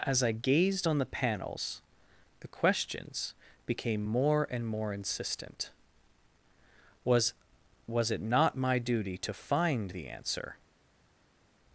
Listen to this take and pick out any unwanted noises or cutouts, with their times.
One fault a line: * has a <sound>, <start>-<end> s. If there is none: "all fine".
all fine